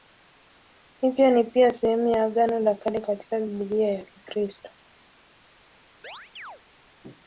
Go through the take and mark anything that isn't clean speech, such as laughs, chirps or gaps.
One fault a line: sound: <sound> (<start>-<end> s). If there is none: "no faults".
sound: chirp (6.0-6.6 s)